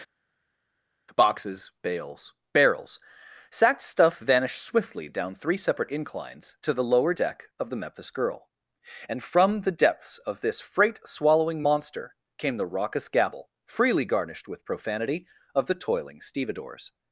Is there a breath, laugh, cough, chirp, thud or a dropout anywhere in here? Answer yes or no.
no